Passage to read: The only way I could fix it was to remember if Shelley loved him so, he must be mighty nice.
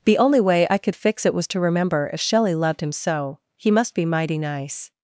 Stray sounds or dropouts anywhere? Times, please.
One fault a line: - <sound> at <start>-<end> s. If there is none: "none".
none